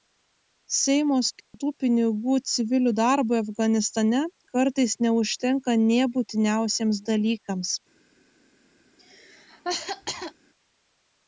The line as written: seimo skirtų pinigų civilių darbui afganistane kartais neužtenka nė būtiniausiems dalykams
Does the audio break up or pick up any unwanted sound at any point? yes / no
yes